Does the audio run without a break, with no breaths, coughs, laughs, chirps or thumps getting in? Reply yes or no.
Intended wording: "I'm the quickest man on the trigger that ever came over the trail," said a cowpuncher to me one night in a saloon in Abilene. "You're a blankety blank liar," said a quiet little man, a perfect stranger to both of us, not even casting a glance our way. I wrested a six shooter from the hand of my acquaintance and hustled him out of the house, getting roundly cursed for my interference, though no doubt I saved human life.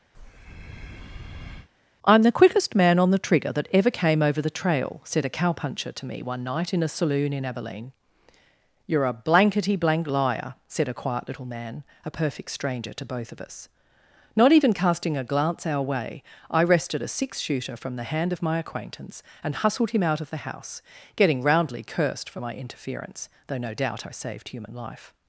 no